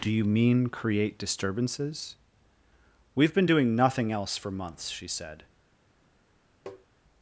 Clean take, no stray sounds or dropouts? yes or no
no